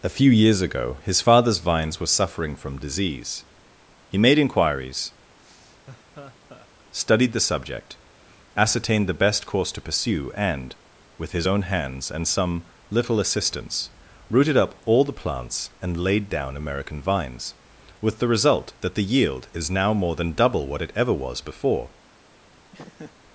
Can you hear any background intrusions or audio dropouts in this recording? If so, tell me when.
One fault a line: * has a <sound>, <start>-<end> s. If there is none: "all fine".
* has a laugh, 5.4-6.7 s
* has a laugh, 22.7-23.2 s